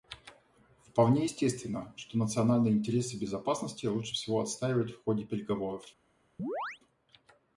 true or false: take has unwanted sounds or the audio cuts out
true